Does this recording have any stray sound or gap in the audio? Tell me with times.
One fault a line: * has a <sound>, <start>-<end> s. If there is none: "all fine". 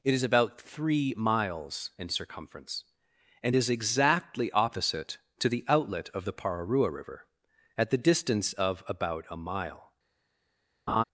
* has a laugh, 10.9-11.0 s